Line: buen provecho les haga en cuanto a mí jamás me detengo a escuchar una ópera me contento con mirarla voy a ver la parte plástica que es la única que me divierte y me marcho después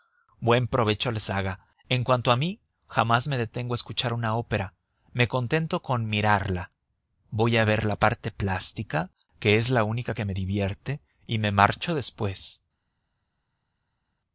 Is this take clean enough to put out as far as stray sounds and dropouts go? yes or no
yes